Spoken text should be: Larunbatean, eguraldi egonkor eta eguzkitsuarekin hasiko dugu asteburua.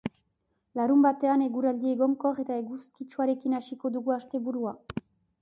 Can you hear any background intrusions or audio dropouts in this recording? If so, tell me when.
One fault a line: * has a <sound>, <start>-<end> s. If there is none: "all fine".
all fine